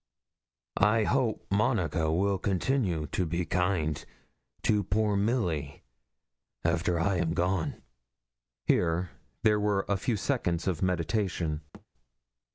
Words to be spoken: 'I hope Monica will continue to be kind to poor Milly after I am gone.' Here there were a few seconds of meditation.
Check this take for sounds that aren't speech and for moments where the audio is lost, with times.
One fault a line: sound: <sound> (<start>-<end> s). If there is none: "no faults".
sound: thud (11.7-11.9 s)